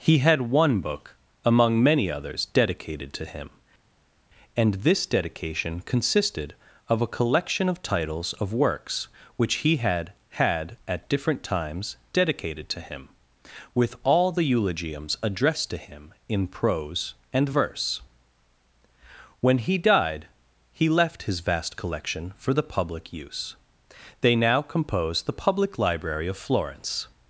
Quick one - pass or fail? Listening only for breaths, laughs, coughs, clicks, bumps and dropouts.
pass